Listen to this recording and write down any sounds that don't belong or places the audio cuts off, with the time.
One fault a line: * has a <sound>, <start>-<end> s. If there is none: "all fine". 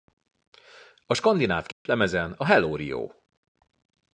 * has a dropout, 1.7-1.9 s